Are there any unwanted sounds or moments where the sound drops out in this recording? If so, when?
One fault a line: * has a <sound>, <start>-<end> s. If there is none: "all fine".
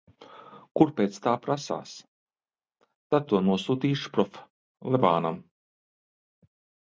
all fine